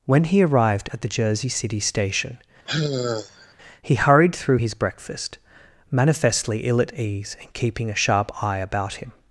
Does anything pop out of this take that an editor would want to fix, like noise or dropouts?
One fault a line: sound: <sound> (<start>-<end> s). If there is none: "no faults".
sound: sigh (2.7-3.5 s)